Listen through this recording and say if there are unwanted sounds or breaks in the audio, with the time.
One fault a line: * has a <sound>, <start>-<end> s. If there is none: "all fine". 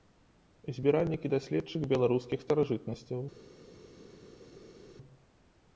all fine